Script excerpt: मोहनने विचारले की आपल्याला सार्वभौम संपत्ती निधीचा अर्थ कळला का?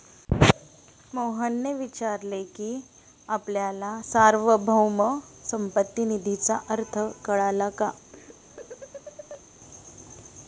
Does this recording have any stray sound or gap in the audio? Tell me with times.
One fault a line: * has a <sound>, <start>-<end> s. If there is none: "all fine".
* has a laugh, 8.1-9.4 s